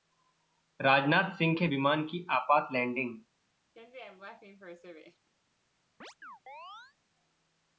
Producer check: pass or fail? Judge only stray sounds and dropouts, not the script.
fail